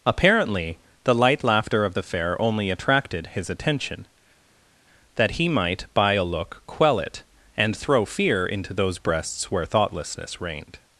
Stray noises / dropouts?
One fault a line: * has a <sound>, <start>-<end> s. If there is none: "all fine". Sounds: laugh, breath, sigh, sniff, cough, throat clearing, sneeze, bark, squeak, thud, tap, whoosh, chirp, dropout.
all fine